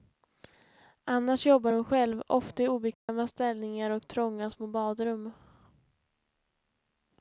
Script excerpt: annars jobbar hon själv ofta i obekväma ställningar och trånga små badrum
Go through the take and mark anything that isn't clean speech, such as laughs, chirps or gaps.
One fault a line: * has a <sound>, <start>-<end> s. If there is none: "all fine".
* has a dropout, 2.9-3.1 s